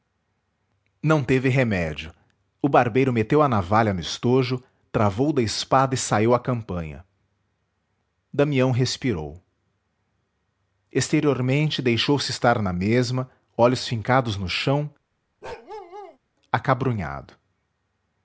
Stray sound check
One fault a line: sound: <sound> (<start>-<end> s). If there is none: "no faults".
sound: bark (15.4-16.2 s)